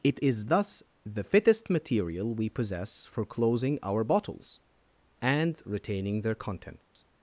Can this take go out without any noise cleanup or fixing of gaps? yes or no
no